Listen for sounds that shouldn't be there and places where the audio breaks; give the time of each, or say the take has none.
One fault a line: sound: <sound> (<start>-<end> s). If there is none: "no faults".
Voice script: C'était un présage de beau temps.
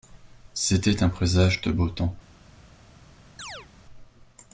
sound: chirp (3.4-3.7 s)